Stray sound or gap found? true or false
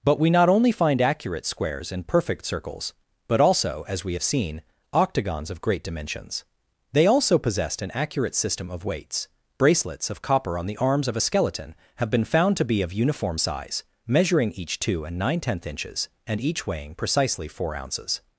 false